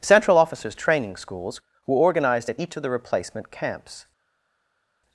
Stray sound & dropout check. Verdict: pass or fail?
pass